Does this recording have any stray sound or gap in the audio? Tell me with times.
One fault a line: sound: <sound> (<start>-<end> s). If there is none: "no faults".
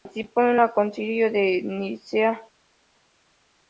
no faults